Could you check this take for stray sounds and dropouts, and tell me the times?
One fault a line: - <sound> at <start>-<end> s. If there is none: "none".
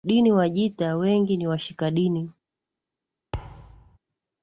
- thud at 3.3-4.0 s